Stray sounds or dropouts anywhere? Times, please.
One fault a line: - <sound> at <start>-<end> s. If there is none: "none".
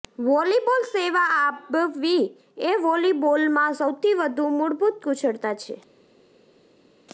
none